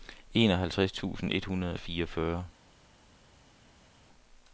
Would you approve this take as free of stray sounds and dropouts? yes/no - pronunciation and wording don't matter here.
yes